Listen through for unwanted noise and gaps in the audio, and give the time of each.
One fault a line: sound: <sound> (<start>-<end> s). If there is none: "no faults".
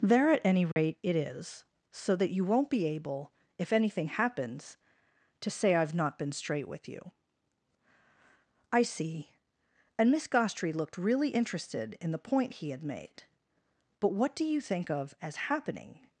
sound: dropout (0.7-0.8 s)